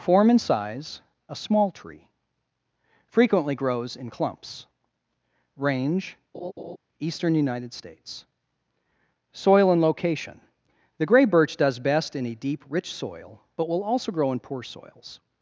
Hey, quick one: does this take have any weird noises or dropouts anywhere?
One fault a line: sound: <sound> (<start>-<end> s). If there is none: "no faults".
sound: laugh (6.3-6.8 s)